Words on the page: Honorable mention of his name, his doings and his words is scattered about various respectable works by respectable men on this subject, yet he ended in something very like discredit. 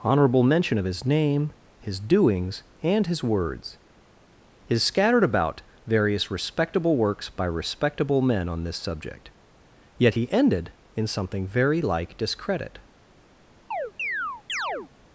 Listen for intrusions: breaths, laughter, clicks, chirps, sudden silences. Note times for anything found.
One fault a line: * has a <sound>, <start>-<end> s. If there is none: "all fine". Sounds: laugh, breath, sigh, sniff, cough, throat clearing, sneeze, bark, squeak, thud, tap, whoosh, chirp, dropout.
* has a chirp, 13.7-14.9 s